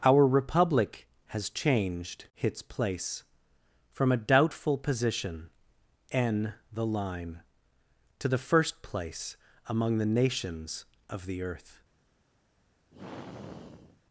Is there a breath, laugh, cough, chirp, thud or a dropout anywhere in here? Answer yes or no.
yes